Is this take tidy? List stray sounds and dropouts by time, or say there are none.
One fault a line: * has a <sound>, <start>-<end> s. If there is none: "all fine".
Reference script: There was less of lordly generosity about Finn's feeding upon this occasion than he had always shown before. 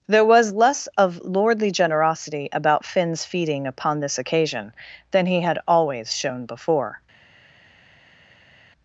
all fine